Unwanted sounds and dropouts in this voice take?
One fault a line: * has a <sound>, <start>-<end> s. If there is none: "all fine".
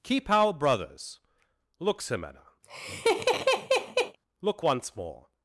* has a laugh, 2.6-4.2 s